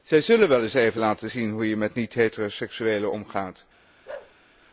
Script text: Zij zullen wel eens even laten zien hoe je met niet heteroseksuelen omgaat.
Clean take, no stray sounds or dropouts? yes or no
no